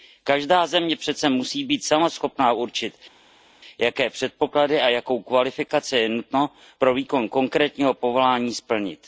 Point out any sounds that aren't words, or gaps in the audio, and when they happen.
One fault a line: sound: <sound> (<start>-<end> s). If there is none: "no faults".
no faults